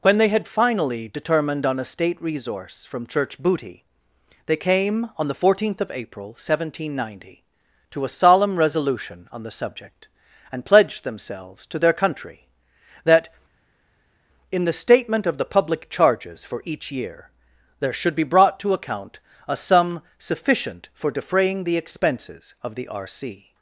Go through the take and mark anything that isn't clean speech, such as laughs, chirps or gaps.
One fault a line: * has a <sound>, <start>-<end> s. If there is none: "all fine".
all fine